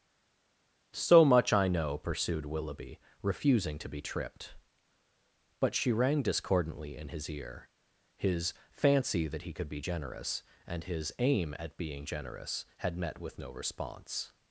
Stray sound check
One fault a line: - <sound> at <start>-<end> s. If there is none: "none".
none